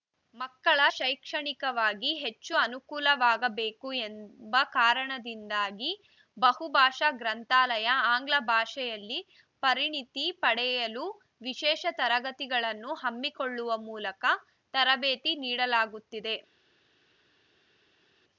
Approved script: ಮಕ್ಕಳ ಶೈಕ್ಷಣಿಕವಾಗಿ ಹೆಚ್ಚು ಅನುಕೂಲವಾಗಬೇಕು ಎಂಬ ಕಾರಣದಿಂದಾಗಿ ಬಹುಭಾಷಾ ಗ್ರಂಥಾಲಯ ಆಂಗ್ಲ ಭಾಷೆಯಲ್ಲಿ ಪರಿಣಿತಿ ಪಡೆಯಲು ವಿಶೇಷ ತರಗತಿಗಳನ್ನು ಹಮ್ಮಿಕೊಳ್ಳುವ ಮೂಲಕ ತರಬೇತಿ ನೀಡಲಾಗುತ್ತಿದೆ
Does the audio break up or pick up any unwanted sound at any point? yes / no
no